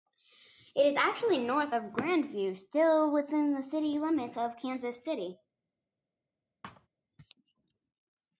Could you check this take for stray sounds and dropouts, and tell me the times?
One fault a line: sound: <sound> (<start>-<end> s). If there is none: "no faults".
sound: thud (6.6-6.9 s)